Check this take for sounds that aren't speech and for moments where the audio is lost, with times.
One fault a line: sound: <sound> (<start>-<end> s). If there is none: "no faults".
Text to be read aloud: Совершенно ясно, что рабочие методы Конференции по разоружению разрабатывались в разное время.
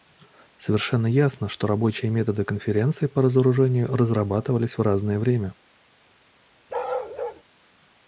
sound: bark (6.7-7.4 s)